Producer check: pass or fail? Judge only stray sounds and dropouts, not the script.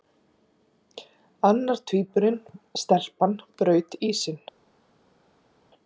pass